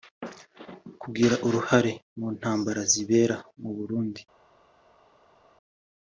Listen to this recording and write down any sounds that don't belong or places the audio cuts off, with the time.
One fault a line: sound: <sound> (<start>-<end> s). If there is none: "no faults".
no faults